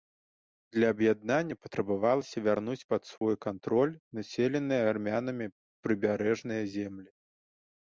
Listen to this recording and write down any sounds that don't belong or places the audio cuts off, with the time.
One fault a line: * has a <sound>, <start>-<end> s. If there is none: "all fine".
* has a dropout, 3.2-3.2 s